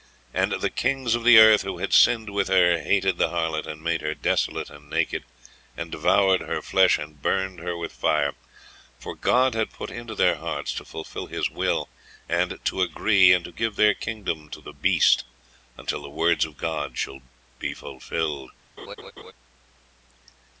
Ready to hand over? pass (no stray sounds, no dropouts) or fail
fail